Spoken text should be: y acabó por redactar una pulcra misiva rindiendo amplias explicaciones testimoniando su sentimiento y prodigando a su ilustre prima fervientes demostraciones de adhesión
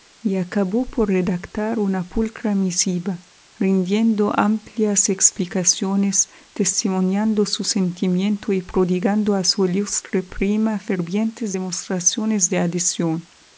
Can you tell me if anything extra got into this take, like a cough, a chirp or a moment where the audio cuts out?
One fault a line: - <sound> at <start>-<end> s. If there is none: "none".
none